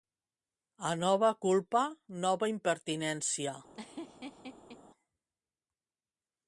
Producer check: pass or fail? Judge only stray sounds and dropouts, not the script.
fail